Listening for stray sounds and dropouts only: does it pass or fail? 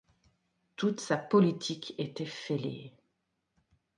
pass